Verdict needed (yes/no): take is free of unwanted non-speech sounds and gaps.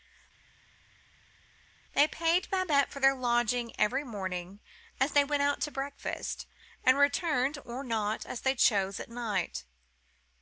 yes